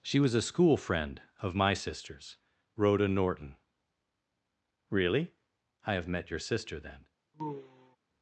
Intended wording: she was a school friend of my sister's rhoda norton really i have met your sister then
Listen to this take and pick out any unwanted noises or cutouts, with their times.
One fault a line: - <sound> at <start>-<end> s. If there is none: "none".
- sigh at 7.3-8.0 s